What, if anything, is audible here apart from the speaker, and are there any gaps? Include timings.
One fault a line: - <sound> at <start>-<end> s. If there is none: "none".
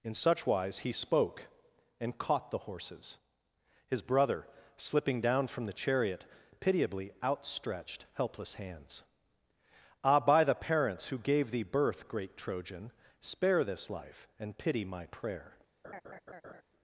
- laugh at 15.8-16.6 s